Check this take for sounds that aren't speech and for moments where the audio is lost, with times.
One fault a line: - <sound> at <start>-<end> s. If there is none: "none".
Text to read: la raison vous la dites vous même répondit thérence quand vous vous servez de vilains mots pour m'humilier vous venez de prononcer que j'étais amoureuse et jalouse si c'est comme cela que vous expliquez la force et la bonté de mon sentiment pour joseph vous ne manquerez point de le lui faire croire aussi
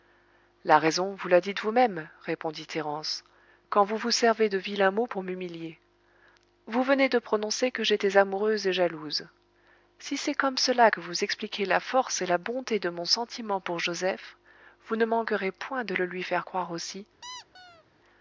- squeak at 17.2-17.8 s